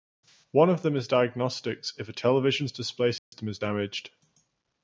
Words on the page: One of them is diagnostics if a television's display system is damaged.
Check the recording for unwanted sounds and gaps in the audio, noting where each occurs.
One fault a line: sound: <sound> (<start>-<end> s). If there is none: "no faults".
sound: dropout (3.2-3.3 s)